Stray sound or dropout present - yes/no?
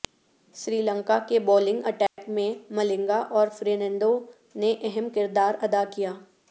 yes